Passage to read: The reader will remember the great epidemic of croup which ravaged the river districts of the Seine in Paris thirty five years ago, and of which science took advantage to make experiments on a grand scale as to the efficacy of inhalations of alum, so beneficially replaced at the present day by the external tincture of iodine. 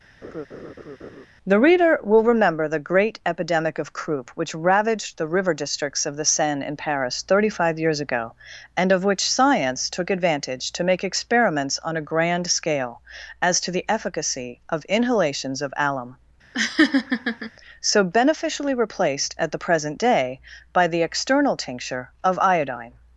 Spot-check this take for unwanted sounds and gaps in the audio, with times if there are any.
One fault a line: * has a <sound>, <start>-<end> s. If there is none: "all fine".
* has a laugh, 0.2-1.3 s
* has a laugh, 16.5-17.5 s